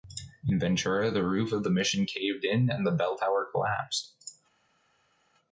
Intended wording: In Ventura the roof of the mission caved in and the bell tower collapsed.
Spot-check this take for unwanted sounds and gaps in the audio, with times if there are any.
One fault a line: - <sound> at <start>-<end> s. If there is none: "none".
none